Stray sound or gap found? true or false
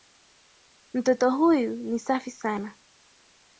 false